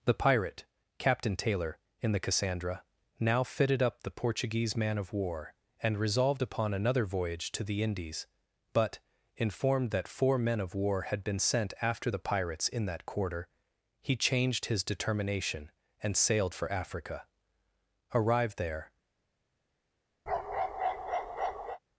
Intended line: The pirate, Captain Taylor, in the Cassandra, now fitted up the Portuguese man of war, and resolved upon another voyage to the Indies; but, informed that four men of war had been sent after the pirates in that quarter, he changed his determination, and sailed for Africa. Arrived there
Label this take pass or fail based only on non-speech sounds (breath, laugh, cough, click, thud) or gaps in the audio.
fail